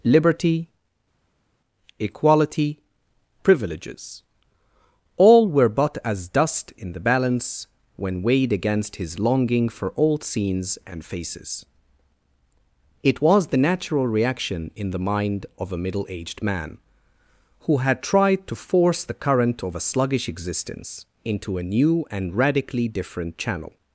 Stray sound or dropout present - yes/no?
no